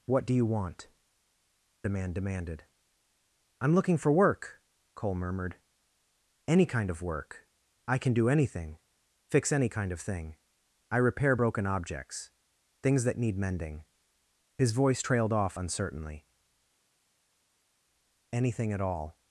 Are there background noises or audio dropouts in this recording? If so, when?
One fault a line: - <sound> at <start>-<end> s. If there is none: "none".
none